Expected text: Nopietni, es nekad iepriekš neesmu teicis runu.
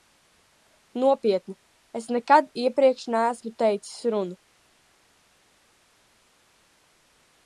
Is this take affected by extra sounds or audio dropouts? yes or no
no